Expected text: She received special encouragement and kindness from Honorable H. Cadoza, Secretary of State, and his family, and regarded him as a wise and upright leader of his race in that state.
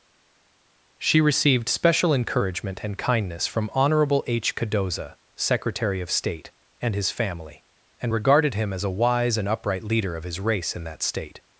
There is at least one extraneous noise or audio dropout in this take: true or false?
false